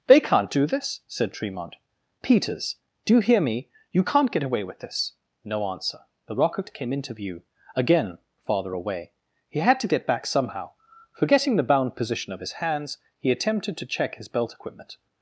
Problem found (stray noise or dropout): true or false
false